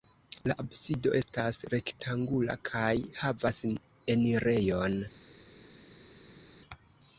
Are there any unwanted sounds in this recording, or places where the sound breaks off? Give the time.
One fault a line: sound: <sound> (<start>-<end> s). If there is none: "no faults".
no faults